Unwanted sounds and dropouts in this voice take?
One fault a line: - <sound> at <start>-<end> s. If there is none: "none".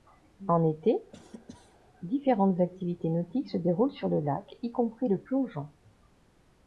- cough at 1.1-1.8 s